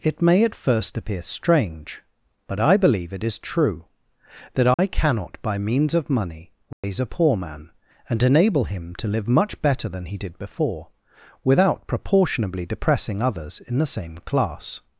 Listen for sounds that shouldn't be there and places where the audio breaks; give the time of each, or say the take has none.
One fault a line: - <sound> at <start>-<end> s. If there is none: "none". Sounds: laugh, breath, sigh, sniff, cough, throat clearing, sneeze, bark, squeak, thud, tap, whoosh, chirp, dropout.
- dropout at 4.7-4.8 s
- dropout at 6.7-6.8 s